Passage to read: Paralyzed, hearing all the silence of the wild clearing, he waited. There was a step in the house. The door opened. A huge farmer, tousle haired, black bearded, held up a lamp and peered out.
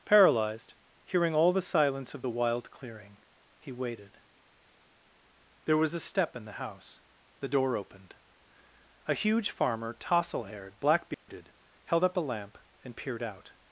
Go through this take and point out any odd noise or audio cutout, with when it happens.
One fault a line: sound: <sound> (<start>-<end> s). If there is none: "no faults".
sound: dropout (11.1-11.3 s)